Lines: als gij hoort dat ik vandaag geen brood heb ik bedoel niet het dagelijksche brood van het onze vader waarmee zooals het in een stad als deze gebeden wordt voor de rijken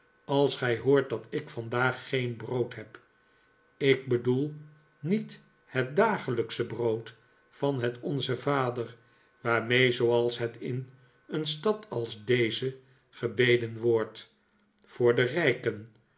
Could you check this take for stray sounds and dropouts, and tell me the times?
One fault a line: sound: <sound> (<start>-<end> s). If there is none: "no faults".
no faults